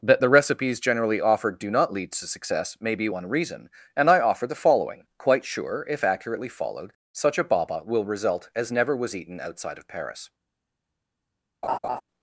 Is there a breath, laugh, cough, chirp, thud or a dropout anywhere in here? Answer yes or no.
yes